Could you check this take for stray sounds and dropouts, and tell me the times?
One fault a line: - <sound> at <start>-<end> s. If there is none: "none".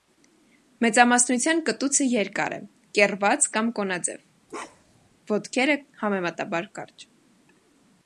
- bark at 4.5-5.1 s